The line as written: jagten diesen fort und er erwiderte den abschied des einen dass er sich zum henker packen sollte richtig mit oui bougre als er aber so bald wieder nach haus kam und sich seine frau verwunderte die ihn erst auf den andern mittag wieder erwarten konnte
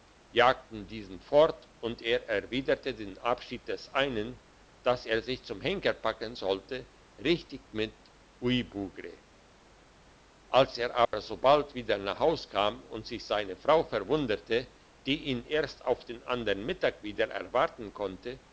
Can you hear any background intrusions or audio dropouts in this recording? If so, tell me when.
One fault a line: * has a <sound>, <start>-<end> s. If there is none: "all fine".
* has a dropout, 11.1-11.1 s